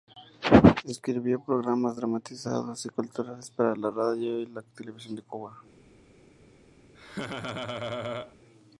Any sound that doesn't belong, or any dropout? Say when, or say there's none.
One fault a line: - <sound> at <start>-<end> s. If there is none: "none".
- laugh at 6.9-8.4 s